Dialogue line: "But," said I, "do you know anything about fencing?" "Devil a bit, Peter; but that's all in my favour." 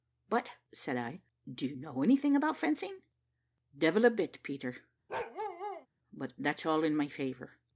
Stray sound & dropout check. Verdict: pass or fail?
fail